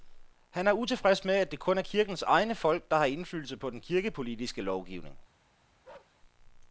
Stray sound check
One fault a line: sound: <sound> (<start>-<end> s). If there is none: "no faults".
sound: bark (5.8-6.2 s)